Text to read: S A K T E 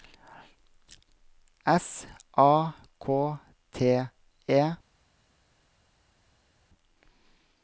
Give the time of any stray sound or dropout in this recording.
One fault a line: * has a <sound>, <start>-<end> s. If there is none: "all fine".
all fine